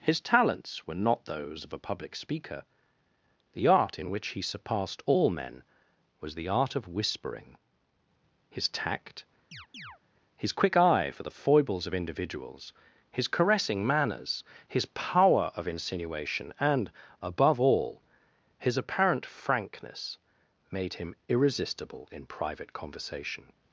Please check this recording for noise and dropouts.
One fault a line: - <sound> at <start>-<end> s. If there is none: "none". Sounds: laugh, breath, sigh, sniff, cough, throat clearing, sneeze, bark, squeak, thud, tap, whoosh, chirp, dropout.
- chirp at 9.5-10.0 s